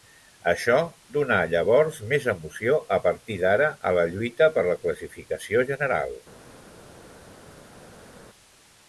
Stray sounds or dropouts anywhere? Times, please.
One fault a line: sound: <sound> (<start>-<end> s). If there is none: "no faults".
no faults